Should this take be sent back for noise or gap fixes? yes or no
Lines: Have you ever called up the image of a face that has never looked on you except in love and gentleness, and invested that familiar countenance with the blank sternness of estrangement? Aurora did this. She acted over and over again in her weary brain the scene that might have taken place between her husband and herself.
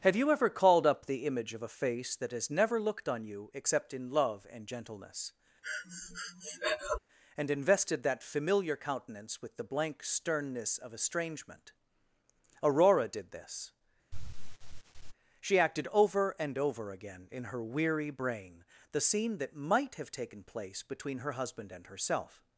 yes